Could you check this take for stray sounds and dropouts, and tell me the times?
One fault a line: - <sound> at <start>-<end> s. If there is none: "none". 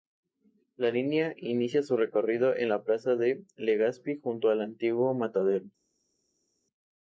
none